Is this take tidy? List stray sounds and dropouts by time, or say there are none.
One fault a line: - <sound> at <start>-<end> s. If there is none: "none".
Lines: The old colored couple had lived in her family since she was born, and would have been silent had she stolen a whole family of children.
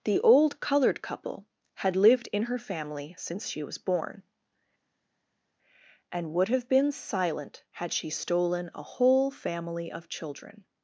none